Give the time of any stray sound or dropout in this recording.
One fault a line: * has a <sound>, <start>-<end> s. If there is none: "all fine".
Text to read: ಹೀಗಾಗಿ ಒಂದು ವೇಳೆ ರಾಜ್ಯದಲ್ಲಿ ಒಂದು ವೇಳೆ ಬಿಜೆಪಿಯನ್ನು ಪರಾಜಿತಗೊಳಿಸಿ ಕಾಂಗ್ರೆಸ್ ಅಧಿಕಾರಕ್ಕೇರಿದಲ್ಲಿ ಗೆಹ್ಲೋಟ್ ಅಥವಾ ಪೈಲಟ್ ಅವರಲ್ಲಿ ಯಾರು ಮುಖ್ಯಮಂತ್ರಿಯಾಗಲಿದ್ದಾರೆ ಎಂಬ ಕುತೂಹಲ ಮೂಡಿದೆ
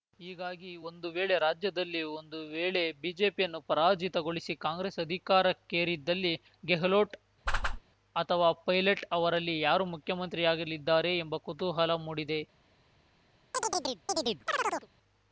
* has a whoosh, 7.5-7.8 s
* has a chirp, 13.5-14.9 s